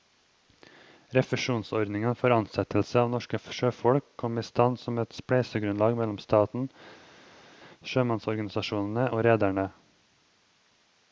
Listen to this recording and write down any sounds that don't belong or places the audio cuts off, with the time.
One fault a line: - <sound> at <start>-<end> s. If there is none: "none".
none